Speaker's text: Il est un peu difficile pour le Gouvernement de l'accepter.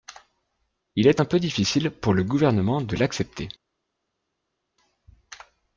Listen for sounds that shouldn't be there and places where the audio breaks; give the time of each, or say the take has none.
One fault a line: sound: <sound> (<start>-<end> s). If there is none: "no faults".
no faults